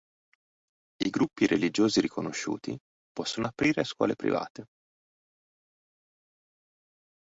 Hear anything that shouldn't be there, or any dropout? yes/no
no